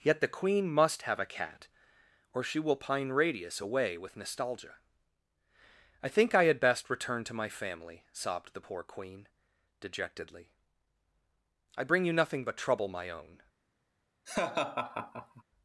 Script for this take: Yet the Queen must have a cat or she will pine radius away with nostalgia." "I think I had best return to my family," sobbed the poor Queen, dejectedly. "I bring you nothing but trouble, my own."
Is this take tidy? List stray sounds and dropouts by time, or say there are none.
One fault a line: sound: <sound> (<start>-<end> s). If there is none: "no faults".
sound: laugh (14.3-15.4 s)